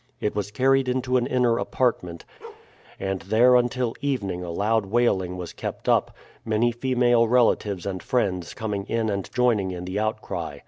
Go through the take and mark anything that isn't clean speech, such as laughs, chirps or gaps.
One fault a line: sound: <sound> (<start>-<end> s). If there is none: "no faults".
sound: bark (2.4-2.7 s)